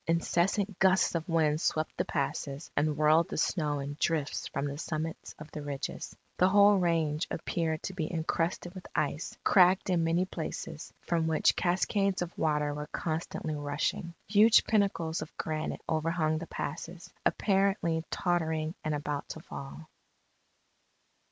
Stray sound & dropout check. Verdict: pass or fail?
pass